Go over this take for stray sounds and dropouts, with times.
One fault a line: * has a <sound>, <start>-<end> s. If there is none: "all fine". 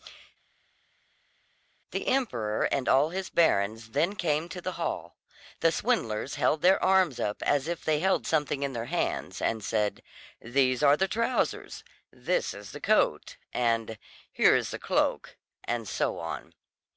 all fine